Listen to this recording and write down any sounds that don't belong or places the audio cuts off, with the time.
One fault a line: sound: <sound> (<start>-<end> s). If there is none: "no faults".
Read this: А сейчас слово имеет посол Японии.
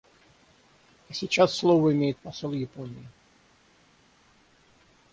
no faults